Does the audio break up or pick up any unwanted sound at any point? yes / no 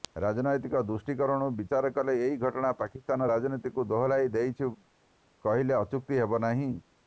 no